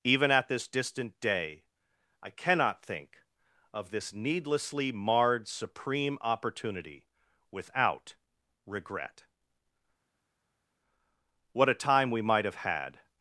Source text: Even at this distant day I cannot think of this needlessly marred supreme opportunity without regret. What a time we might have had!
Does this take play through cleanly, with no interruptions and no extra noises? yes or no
yes